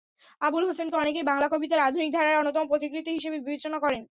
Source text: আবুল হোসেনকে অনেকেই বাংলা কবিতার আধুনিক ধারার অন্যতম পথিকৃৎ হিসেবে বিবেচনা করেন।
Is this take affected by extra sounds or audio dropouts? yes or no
no